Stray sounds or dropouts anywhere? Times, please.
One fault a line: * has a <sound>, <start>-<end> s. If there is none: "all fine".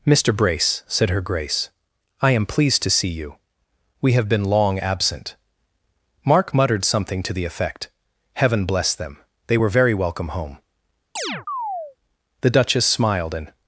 * has a chirp, 11.2-12.0 s